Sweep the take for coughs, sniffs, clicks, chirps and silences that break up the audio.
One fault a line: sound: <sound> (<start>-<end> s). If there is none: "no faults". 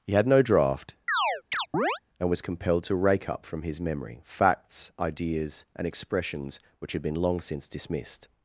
sound: chirp (1.1-2.0 s)